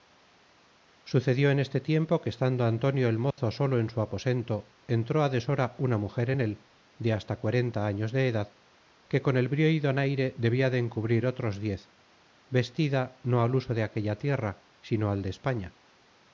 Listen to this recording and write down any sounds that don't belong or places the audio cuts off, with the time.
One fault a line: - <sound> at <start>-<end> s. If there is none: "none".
- dropout at 3.3-3.4 s